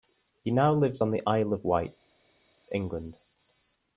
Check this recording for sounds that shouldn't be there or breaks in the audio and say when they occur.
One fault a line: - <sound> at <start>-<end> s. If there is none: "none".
none